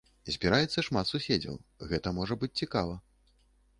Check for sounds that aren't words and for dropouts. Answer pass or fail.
pass